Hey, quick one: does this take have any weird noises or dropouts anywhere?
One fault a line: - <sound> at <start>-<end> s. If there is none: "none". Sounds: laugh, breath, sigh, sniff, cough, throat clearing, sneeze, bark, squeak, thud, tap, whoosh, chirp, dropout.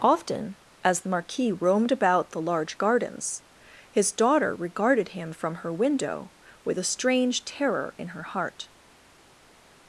none